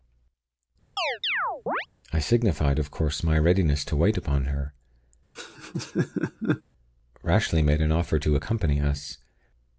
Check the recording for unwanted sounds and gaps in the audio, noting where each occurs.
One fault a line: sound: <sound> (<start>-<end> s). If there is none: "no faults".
sound: chirp (1.0-1.9 s)
sound: laugh (5.3-6.6 s)